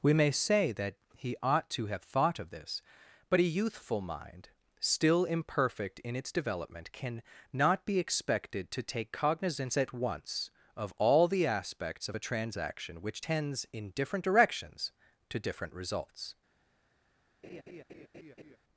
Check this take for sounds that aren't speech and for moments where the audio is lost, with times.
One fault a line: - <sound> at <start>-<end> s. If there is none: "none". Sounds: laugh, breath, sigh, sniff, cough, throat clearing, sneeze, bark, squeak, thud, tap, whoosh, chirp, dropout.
- laugh at 17.4-18.6 s